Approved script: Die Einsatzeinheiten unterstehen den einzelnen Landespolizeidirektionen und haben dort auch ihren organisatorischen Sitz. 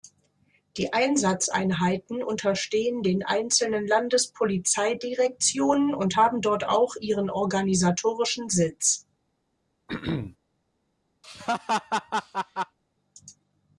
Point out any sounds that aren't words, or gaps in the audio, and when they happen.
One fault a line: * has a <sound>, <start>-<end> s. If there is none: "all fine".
* has a throat clearing, 9.9-10.4 s
* has a laugh, 11.2-12.8 s